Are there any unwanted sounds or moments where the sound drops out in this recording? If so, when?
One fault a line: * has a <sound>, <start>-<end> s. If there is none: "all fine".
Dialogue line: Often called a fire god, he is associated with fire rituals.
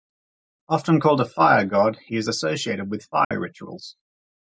* has a dropout, 3.2-3.3 s